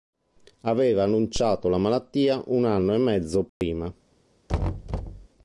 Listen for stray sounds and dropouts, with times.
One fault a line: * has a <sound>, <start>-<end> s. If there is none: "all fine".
* has a dropout, 3.5-3.6 s
* has a thud, 4.5-5.3 s